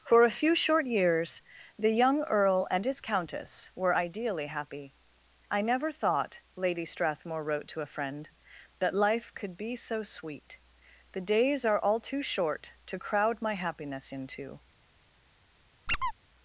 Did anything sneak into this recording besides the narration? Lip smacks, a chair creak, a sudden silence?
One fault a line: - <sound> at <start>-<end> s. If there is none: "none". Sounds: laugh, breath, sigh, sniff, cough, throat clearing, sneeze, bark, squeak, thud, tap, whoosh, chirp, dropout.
- squeak at 15.9-16.1 s